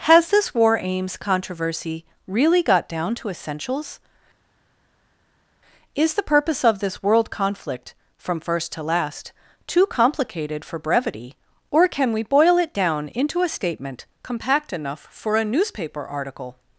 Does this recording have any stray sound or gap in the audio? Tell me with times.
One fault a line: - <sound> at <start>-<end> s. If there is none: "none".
none